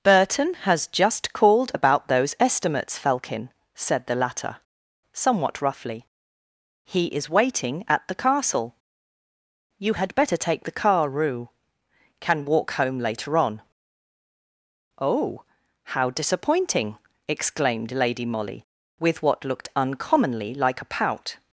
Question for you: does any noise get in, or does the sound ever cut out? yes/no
no